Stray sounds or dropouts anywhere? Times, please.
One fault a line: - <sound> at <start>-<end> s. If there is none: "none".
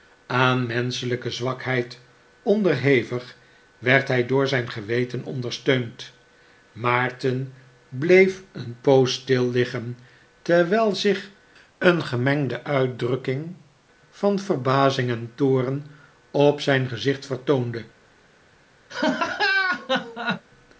- laugh at 18.9-20.4 s